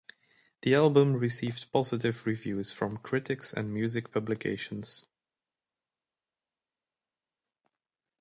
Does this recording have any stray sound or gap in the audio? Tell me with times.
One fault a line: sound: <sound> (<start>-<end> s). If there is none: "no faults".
no faults